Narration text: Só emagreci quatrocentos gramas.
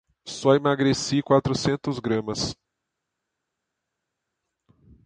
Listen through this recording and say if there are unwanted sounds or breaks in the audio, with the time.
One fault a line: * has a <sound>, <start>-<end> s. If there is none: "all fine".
all fine